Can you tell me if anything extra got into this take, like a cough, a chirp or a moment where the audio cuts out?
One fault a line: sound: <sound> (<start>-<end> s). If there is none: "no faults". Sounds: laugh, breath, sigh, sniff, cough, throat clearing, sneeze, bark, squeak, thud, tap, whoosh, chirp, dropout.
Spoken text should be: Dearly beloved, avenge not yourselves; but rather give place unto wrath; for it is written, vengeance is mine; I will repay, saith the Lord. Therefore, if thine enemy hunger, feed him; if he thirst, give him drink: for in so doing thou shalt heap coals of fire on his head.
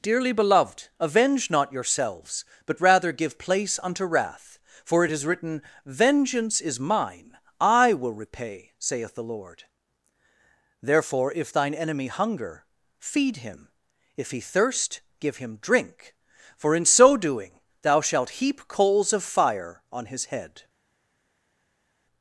no faults